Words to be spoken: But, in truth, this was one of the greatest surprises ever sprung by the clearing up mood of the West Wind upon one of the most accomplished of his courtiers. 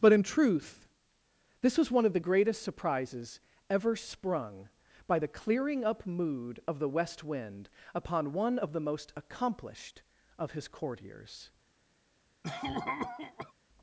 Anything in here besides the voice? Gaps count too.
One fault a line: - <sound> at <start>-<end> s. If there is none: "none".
- cough at 12.4-13.5 s